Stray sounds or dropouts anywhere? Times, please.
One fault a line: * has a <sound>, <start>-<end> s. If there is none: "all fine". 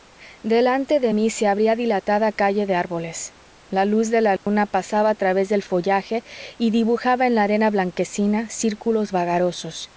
* has a dropout, 4.4-4.5 s